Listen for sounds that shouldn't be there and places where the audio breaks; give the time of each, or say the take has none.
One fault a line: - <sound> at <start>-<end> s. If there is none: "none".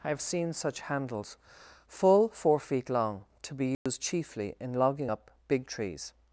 - dropout at 3.7-3.9 s